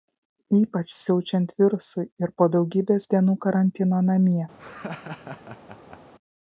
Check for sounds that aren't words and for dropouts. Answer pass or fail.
fail